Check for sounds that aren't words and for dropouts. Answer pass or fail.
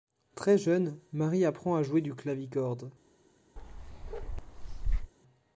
fail